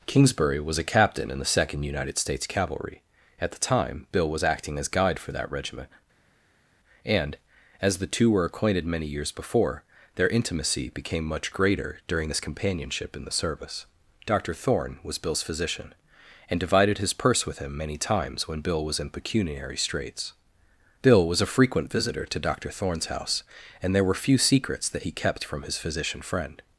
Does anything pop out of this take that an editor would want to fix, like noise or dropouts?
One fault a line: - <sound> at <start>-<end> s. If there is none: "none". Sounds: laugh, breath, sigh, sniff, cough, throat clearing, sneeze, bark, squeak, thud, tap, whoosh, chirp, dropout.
none